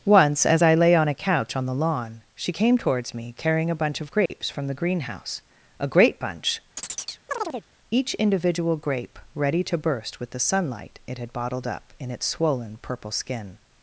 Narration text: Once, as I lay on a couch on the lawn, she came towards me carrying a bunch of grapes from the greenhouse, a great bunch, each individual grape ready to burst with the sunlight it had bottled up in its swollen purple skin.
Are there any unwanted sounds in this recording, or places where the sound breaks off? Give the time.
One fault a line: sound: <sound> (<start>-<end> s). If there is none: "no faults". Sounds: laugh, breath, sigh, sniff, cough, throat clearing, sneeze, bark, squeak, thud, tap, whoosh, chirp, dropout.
sound: dropout (4.3-4.3 s)
sound: chirp (6.8-7.7 s)